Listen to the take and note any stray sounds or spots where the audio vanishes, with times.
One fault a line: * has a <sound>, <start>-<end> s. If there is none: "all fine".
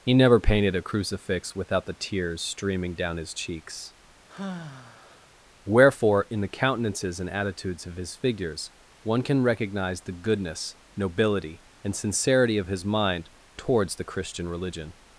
* has a sigh, 4.3-5.3 s